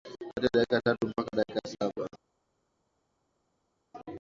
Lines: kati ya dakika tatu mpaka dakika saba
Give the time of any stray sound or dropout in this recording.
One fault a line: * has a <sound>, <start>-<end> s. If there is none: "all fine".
all fine